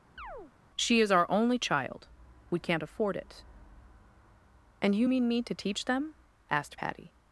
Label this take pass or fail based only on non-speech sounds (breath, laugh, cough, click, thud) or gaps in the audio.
fail